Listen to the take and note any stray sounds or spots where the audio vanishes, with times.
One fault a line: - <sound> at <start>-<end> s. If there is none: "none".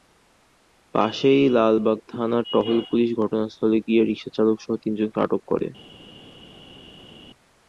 none